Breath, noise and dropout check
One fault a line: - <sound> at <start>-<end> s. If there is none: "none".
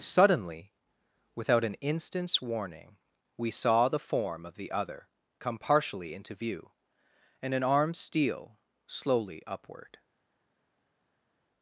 none